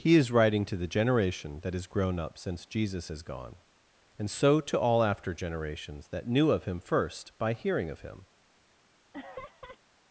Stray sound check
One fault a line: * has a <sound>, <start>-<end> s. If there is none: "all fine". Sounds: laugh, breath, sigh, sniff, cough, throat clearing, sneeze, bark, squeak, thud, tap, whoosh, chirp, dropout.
* has a laugh, 9.1-9.8 s